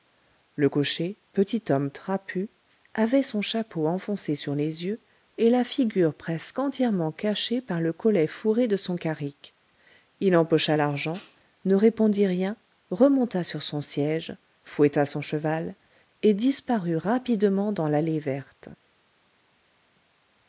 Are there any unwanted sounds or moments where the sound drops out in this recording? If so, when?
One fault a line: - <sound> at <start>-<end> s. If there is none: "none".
none